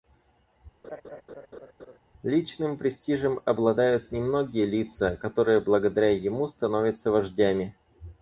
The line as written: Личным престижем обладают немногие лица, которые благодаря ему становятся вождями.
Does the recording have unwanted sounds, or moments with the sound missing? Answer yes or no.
yes